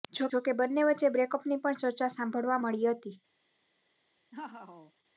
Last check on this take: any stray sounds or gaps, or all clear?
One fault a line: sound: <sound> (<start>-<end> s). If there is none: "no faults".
sound: laugh (4.3-4.9 s)